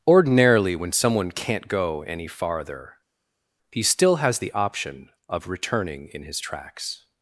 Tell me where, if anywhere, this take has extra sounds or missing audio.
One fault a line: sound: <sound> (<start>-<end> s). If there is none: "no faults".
no faults